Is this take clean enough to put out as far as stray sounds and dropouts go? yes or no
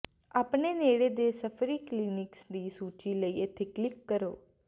yes